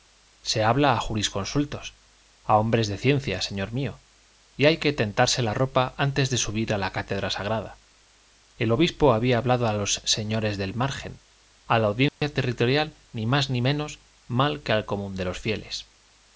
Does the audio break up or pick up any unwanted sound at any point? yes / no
yes